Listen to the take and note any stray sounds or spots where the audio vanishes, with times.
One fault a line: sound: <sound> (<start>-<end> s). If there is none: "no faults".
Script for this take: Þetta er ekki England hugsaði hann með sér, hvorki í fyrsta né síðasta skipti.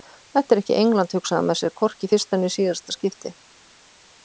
no faults